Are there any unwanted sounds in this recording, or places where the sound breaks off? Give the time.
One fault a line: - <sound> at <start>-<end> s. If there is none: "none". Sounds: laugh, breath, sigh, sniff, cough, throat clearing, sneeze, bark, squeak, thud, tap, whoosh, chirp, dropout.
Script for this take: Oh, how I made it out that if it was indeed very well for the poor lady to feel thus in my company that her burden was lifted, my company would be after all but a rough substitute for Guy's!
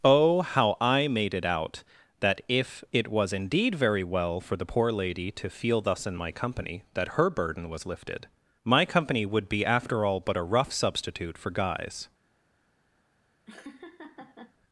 - laugh at 13.5-14.5 s